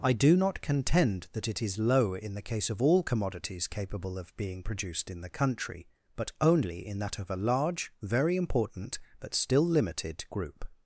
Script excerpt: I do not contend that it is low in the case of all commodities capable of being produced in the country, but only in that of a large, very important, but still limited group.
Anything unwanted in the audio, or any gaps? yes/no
no